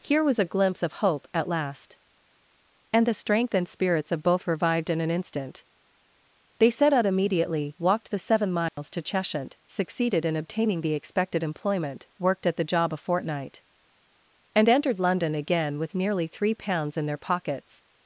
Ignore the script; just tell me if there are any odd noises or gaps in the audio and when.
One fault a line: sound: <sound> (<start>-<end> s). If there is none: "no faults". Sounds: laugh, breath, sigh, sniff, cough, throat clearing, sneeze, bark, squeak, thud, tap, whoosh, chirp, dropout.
sound: dropout (8.7-8.8 s)